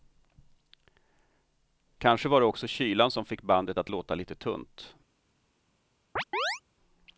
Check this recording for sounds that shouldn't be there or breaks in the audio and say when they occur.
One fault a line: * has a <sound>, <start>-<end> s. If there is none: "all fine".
* has a chirp, 6.2-6.6 s